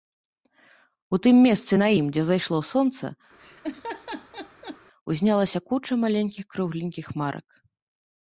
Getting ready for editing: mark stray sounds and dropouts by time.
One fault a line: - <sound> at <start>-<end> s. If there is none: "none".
- laugh at 3.4-4.8 s